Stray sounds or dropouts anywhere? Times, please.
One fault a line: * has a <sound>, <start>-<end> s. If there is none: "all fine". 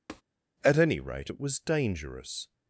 * has a tap, 0.1-0.2 s